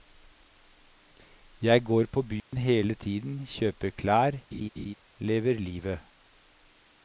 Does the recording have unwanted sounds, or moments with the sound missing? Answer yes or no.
yes